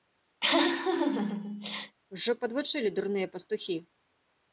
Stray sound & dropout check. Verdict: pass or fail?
fail